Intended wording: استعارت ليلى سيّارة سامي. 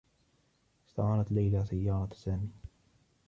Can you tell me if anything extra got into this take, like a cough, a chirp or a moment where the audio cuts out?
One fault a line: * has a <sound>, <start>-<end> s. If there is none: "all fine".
all fine